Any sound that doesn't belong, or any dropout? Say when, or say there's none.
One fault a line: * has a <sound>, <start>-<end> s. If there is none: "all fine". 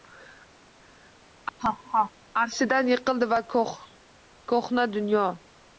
* has a laugh, 1.6-2.1 s